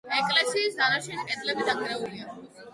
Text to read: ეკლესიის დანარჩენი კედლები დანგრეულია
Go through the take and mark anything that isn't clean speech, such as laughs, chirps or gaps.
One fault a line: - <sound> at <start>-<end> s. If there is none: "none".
none